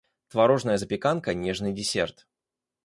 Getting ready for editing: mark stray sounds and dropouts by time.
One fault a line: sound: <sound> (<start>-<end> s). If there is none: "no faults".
no faults